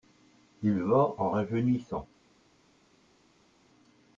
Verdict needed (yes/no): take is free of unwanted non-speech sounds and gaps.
yes